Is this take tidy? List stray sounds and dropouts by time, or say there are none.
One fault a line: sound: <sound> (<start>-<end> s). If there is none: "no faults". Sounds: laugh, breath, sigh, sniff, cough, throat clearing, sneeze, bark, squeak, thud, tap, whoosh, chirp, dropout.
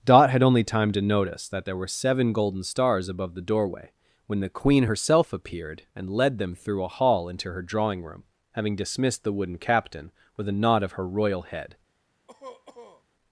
sound: cough (12.3-13.0 s)